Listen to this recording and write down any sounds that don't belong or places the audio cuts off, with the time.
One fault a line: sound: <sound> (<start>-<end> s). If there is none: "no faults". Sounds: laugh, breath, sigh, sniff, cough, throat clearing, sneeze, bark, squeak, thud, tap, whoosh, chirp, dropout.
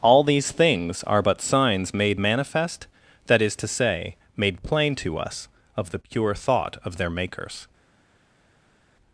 no faults